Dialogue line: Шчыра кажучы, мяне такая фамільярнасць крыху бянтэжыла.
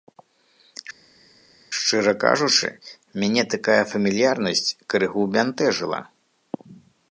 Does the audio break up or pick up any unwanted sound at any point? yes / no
no